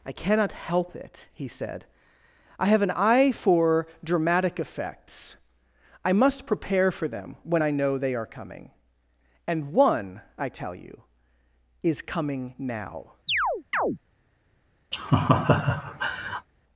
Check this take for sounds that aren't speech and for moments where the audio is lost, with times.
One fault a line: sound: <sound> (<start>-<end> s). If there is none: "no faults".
sound: chirp (13.3-14.0 s)
sound: laugh (14.9-16.5 s)